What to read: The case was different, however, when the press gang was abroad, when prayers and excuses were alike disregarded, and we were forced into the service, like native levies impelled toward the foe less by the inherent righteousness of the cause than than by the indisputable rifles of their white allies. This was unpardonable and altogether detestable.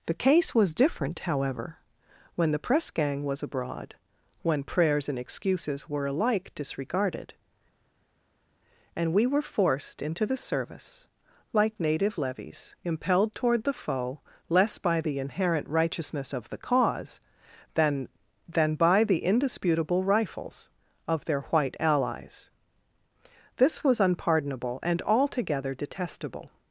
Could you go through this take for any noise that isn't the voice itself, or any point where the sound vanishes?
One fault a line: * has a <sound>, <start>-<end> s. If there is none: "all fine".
all fine